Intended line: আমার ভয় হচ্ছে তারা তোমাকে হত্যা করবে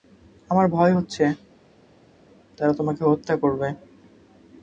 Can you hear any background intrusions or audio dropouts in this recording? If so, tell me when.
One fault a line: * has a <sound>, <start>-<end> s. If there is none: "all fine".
all fine